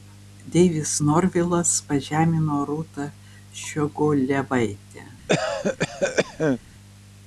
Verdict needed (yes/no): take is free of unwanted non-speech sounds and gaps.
no